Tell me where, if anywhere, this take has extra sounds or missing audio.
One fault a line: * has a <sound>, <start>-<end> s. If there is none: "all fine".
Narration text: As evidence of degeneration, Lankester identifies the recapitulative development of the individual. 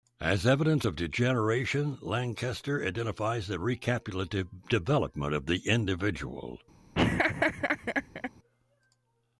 * has a laugh, 6.9-8.3 s